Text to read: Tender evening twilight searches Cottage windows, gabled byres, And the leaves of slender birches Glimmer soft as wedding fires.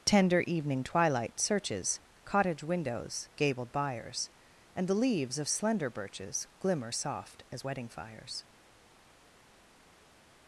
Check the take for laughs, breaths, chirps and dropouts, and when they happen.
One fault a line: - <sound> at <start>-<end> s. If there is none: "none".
none